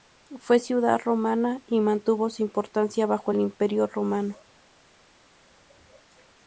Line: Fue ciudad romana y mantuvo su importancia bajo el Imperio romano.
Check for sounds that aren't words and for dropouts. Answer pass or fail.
pass